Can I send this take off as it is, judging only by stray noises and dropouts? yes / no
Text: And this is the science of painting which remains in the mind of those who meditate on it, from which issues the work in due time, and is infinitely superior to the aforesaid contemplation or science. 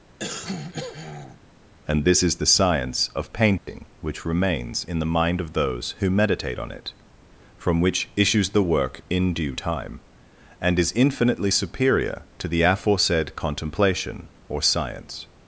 no